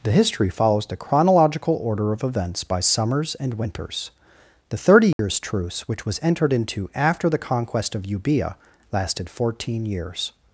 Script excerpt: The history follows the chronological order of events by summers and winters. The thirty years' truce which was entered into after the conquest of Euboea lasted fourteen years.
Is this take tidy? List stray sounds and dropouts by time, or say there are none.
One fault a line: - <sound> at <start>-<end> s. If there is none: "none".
- dropout at 5.1-5.2 s